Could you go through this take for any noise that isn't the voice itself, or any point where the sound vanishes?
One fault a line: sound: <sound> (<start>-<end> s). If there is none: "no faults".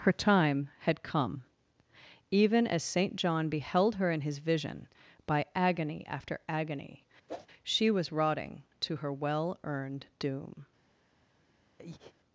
sound: whoosh (7.3-7.5 s)
sound: breath (11.8-12.1 s)